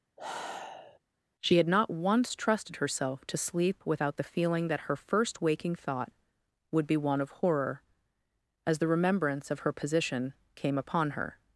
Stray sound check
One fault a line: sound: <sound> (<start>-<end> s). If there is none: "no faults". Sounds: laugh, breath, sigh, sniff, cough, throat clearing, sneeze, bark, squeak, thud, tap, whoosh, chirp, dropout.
sound: sigh (0.2-1.0 s)